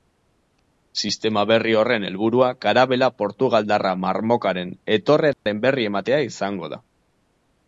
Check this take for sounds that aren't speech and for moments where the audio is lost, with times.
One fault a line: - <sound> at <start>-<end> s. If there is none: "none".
- dropout at 5.3-5.5 s